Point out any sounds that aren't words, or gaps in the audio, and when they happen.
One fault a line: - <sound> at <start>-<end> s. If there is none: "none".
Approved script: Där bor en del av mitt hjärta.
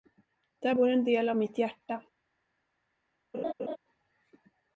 - laugh at 3.3-3.8 s